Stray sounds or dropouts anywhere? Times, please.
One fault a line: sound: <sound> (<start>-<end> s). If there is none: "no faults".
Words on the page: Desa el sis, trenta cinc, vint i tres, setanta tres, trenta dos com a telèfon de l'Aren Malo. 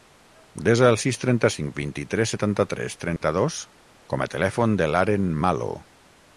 sound: dropout (3.2-3.2 s)